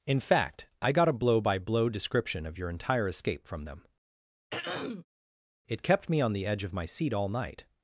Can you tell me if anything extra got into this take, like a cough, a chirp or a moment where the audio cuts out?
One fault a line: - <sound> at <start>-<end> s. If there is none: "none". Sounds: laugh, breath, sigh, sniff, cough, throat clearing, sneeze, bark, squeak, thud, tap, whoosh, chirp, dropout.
- throat clearing at 4.5-5.1 s